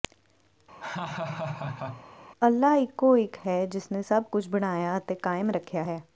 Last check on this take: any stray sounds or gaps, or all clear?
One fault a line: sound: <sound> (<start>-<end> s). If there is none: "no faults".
sound: laugh (0.8-2.1 s)